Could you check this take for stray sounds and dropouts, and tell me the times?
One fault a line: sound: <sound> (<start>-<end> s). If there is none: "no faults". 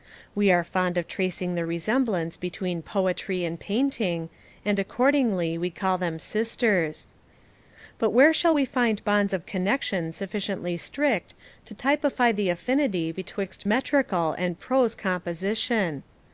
no faults